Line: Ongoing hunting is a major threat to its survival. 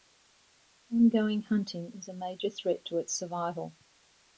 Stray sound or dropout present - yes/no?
no